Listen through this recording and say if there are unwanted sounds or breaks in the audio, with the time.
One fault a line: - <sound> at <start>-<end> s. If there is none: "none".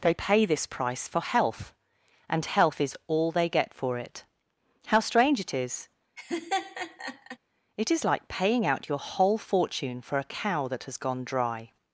- laugh at 6.2-7.4 s